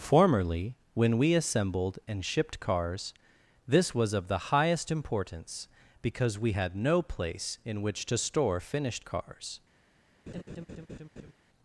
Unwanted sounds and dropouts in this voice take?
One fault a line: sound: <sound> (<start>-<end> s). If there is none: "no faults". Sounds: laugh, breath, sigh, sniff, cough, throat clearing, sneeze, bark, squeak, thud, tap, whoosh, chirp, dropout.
sound: laugh (10.3-11.3 s)